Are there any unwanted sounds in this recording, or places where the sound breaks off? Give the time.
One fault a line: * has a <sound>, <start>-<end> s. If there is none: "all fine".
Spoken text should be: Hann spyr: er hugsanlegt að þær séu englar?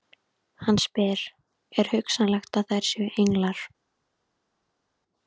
all fine